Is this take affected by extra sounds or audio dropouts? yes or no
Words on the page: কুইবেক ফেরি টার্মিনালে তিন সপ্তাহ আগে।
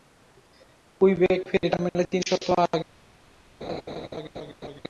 yes